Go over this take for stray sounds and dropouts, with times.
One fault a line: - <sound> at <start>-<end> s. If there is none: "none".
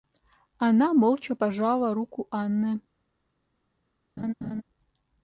- laugh at 4.2-4.6 s